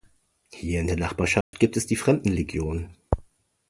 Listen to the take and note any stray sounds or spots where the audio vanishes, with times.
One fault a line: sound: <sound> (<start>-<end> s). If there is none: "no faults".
sound: dropout (1.4-1.5 s)